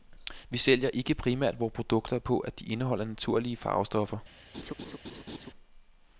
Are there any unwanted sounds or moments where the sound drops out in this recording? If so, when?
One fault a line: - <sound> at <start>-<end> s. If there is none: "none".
- laugh at 4.5-5.5 s